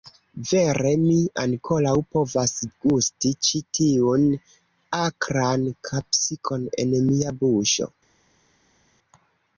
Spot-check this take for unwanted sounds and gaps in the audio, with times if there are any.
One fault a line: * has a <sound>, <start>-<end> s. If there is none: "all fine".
all fine